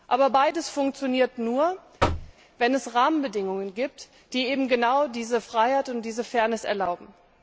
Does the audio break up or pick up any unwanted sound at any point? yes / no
yes